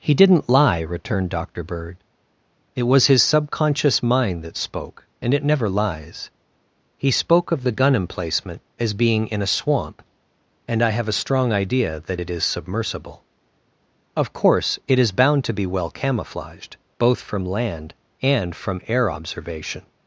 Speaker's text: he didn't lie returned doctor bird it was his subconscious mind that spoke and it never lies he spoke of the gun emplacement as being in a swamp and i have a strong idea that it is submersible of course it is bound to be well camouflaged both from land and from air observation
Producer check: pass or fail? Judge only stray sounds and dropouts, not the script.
pass